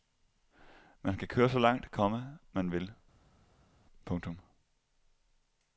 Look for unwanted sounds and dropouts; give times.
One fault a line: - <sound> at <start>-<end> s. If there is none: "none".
none